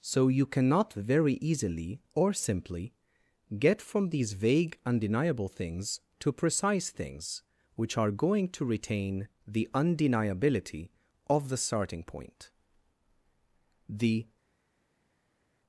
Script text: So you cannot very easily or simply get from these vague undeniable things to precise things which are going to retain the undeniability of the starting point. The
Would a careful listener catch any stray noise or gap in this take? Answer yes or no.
no